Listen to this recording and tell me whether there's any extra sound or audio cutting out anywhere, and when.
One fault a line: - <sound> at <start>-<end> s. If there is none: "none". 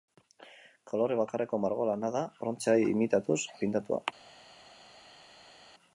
none